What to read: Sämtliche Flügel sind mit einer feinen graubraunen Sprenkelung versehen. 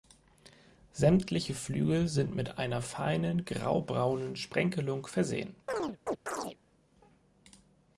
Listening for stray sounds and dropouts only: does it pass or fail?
fail